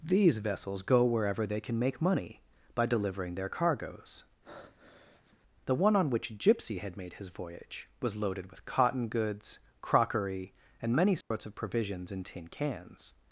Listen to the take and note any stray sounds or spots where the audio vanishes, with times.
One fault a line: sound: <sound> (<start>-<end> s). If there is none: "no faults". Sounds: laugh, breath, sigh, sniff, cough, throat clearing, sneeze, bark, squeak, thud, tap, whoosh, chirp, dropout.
sound: breath (4.4-5.4 s)
sound: dropout (11.2-11.3 s)